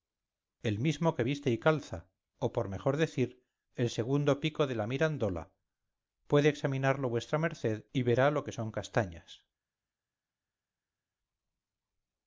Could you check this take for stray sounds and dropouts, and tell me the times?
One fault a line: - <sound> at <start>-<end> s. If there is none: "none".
none